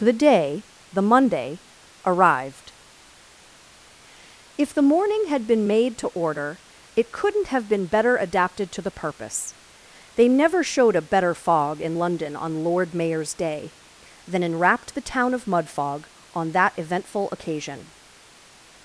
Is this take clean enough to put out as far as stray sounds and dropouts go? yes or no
yes